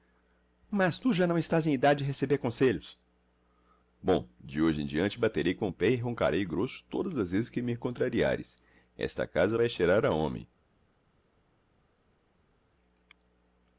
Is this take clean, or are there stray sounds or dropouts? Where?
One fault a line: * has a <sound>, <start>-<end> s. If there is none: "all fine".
all fine